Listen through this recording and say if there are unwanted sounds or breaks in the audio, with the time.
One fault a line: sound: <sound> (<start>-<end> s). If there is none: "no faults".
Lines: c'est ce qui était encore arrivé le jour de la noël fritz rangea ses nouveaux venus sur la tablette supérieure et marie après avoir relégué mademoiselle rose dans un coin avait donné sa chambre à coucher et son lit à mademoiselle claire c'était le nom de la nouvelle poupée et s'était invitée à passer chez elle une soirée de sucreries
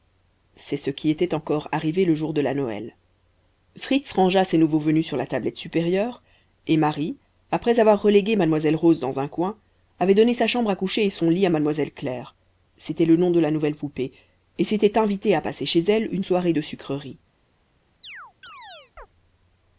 sound: chirp (18.0-19.1 s)